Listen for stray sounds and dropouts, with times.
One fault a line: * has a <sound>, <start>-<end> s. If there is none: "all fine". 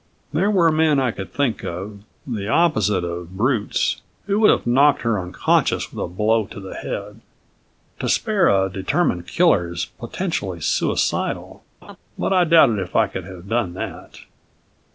* has a laugh, 11.8-12.0 s